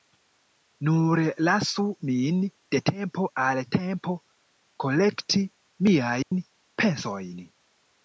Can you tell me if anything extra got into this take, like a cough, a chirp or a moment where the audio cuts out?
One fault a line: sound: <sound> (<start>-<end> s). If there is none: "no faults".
sound: dropout (6.2-6.3 s)